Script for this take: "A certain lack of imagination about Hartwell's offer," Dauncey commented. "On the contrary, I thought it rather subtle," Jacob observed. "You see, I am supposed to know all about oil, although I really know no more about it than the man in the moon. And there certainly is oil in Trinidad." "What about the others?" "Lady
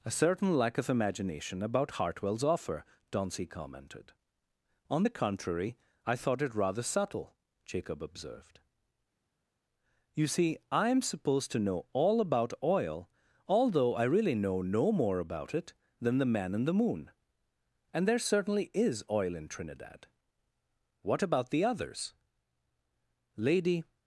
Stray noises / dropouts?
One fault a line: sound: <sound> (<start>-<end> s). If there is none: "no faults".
no faults